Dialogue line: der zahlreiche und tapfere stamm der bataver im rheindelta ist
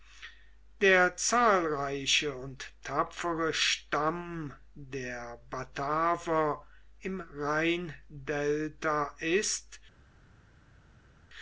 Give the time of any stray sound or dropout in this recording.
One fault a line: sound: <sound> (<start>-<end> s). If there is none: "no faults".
no faults